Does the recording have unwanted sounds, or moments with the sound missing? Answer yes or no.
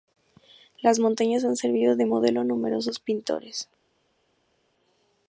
no